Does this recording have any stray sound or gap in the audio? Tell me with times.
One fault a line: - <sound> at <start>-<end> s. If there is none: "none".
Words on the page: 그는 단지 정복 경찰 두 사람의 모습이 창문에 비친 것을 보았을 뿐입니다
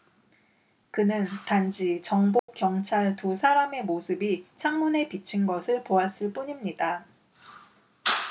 - dropout at 2.4-2.5 s